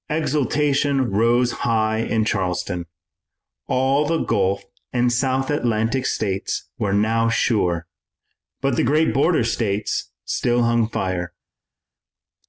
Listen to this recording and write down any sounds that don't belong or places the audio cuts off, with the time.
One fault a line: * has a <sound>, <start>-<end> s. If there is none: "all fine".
all fine